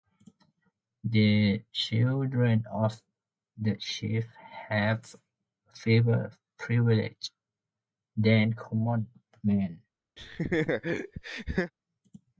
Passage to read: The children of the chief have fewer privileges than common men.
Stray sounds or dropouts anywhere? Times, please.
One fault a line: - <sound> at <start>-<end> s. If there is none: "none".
- laugh at 10.2-11.7 s